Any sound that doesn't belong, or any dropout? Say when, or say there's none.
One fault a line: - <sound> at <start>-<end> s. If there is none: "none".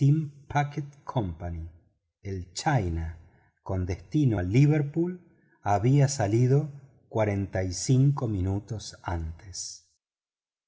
none